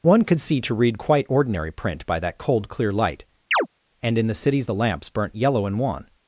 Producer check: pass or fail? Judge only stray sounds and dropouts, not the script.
fail